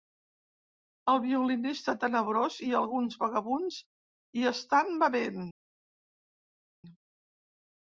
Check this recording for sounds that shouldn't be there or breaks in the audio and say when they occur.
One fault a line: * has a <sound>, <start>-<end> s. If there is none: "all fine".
all fine